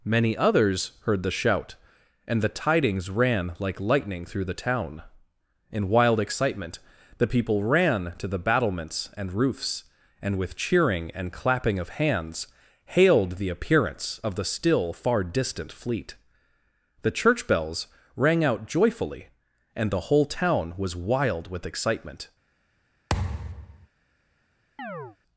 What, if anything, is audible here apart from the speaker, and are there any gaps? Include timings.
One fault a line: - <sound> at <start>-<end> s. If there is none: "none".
- thud at 23.1-23.9 s
- chirp at 24.8-25.2 s